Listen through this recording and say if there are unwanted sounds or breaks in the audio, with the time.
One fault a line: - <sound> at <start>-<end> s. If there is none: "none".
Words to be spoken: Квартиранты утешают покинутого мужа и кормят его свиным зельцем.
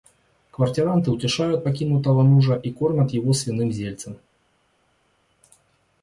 none